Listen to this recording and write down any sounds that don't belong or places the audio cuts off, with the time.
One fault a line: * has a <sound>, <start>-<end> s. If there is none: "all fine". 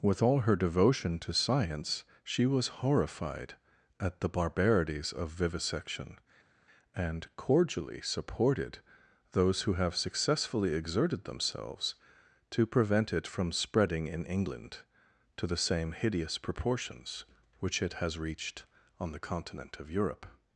all fine